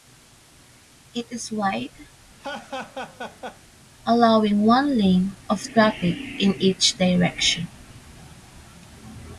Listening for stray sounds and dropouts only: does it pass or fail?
fail